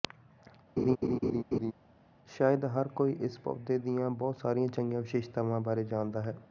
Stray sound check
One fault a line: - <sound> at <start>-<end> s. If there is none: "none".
- laugh at 0.8-1.7 s